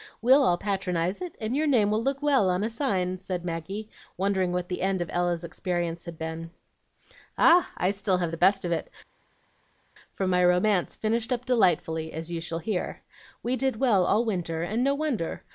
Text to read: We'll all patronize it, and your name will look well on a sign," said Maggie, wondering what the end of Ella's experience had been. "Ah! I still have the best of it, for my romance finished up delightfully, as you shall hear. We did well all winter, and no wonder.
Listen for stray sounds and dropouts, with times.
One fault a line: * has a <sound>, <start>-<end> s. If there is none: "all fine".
all fine